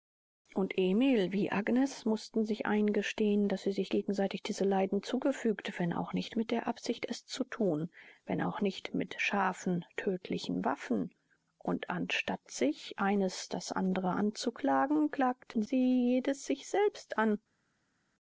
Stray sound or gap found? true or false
false